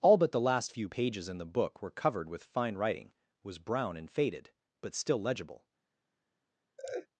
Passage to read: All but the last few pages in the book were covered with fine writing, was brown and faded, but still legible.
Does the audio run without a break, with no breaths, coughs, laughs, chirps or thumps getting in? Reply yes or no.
no